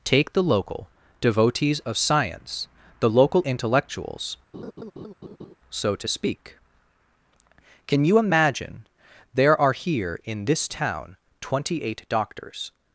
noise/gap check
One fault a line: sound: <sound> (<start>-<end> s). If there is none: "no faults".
sound: laugh (4.5-5.6 s)